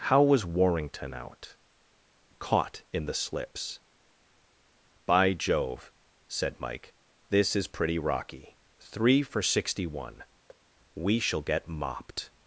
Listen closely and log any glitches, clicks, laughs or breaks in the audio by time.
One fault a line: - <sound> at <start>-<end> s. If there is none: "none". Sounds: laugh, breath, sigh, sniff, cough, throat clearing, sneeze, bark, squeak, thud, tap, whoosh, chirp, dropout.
- thud at 10.5-10.7 s